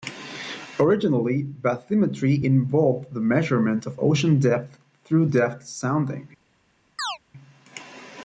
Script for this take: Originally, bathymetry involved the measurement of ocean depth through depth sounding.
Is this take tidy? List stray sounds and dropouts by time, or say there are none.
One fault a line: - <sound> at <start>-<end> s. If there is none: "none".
- chirp at 7.0-7.2 s